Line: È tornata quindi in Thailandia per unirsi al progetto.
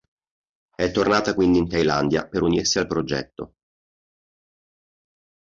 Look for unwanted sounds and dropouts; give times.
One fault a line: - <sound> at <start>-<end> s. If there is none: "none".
none